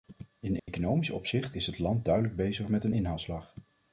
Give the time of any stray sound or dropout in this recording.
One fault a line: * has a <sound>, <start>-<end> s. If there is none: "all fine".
* has a dropout, 0.6-0.7 s